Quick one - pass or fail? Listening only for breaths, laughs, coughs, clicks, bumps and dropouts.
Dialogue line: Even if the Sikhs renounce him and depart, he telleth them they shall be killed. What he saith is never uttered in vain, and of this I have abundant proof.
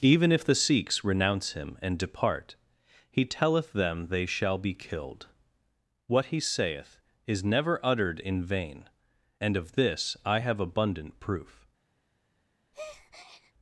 fail